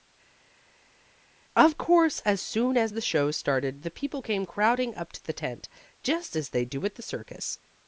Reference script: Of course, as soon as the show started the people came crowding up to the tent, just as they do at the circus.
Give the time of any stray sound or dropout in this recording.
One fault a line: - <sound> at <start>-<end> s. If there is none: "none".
none